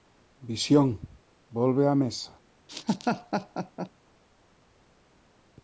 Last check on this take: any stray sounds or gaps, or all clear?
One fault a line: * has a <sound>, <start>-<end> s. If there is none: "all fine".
* has a laugh, 2.7-3.9 s